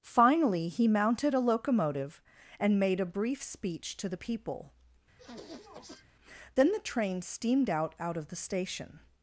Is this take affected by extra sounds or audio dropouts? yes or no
yes